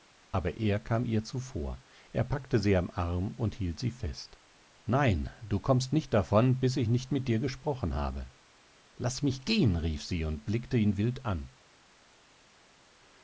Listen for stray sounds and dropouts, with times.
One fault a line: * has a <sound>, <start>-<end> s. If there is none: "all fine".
all fine